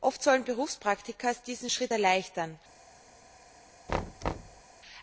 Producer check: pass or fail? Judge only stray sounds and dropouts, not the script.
fail